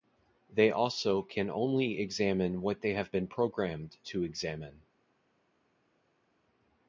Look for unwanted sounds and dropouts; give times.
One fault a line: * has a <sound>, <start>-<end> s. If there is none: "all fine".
all fine